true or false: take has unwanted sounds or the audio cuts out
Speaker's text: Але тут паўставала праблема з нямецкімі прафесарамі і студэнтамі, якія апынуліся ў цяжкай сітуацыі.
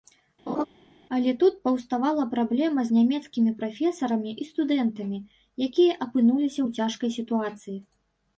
true